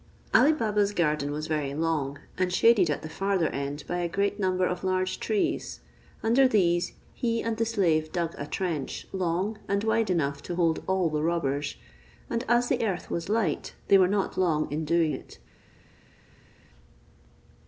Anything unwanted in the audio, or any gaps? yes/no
no